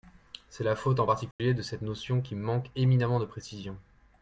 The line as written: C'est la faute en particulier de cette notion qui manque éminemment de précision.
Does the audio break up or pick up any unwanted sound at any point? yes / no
yes